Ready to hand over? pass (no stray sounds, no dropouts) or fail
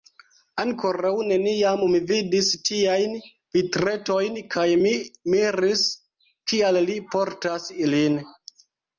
pass